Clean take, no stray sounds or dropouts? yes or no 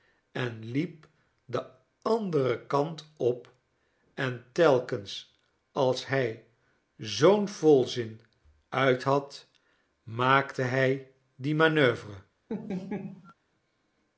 no